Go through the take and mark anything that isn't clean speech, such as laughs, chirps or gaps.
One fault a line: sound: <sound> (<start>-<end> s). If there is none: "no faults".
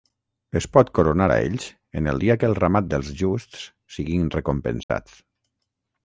sound: dropout (4.8-4.9 s)